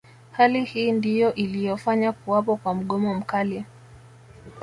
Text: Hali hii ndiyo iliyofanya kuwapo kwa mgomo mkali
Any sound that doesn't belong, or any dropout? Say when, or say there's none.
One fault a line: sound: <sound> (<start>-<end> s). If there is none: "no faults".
no faults